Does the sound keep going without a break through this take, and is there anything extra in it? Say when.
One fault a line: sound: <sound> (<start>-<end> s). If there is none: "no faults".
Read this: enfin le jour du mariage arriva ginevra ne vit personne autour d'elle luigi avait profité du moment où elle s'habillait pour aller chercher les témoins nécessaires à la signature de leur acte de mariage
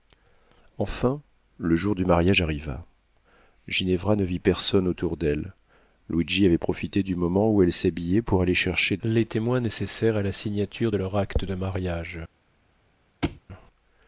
sound: thud (13.2-13.4 s)